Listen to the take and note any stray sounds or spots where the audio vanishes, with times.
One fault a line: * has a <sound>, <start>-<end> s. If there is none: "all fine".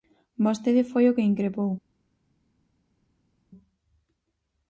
all fine